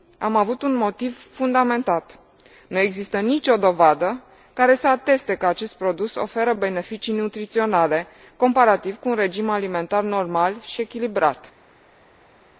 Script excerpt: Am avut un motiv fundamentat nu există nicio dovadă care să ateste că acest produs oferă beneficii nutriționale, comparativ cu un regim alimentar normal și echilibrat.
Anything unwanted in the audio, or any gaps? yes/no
no